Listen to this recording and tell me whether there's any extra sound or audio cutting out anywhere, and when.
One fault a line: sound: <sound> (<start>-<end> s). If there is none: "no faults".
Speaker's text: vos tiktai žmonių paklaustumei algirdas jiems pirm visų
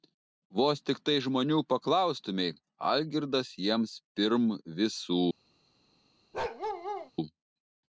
sound: bark (6.3-7.1 s)